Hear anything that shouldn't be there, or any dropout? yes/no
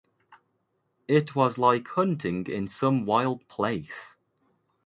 no